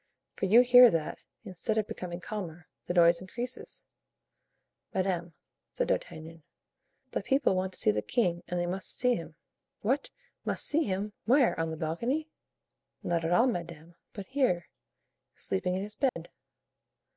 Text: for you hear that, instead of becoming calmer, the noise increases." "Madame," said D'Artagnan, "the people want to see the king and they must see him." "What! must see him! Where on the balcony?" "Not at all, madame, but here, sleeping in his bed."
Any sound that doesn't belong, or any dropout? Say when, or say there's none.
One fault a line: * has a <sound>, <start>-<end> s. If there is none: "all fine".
* has a dropout, 16.1-16.2 s